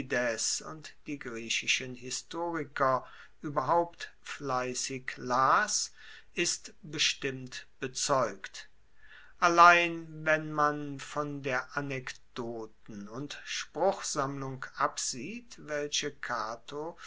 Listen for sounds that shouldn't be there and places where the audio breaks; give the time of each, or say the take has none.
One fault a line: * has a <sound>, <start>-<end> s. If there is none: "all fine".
all fine